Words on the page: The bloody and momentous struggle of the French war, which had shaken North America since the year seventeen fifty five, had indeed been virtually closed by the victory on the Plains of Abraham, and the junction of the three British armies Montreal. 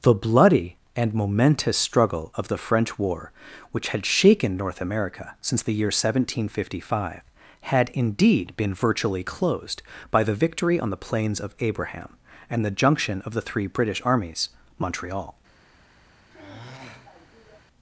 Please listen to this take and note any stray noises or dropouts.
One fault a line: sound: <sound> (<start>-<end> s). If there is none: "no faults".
sound: sigh (16.3-17.6 s)